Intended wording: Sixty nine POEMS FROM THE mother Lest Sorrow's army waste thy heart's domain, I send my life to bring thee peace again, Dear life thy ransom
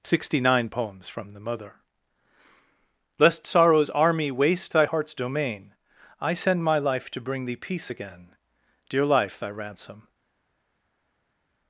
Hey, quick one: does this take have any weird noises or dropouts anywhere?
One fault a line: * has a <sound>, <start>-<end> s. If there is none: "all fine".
all fine